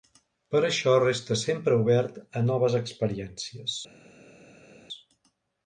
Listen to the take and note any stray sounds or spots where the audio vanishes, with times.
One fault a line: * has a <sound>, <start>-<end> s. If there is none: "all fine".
all fine